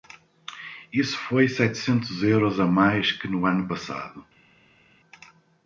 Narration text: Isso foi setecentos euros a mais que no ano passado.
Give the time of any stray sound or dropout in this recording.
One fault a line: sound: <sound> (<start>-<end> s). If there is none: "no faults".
no faults